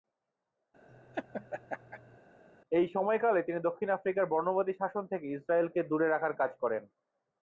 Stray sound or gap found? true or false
true